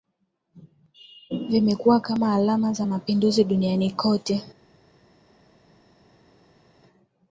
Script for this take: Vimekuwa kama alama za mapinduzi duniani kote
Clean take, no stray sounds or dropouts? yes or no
yes